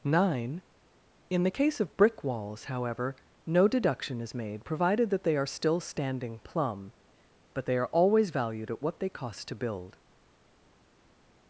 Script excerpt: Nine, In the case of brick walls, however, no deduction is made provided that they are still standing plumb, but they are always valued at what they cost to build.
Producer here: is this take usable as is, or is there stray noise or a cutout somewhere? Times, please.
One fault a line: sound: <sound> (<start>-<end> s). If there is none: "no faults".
no faults